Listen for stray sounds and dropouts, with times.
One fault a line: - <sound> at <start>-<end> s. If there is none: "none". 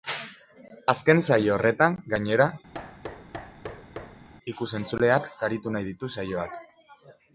- thud at 2.7-4.3 s